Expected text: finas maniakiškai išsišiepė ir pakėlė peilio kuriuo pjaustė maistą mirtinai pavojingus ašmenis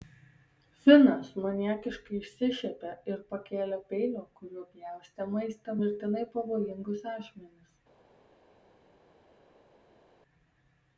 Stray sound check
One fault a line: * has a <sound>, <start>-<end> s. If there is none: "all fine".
all fine